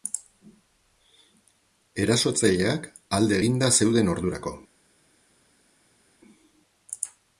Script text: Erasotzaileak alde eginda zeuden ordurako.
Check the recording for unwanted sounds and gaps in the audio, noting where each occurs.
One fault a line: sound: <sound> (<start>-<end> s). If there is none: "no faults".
no faults